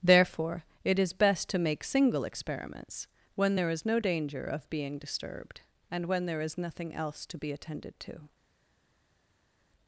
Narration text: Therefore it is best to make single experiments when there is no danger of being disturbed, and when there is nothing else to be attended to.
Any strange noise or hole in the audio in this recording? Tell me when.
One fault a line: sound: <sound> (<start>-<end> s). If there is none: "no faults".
no faults